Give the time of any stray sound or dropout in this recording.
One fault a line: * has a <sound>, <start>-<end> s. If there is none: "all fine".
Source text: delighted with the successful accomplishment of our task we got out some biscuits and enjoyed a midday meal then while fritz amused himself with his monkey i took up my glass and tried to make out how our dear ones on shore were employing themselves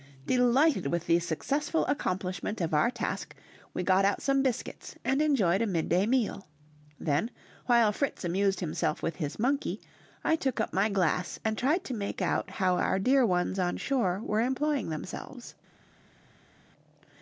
all fine